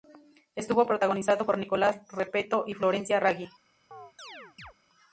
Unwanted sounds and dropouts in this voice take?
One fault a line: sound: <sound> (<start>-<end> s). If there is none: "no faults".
sound: chirp (3.9-4.7 s)